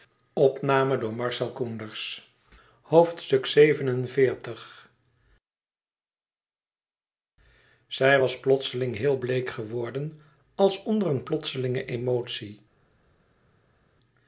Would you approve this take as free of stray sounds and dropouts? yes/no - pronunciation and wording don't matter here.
yes